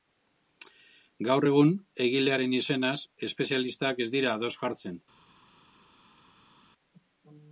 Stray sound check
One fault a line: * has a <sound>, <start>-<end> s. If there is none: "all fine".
all fine